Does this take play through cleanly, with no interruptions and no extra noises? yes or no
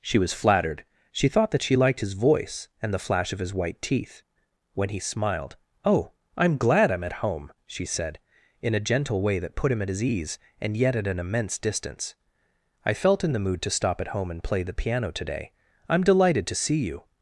yes